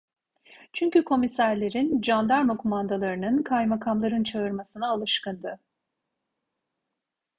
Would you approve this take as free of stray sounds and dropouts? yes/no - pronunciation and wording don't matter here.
yes